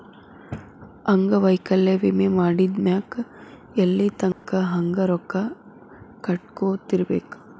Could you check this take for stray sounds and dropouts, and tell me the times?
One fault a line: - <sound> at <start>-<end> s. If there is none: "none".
- dropout at 4.3-4.4 s